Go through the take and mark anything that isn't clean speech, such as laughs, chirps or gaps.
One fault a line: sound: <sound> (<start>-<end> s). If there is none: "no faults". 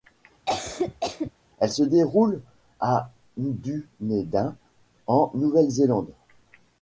sound: cough (0.5-1.3 s)